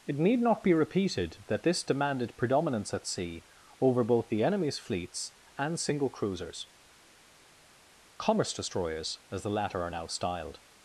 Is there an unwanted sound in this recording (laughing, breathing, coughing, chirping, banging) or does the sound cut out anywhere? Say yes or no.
no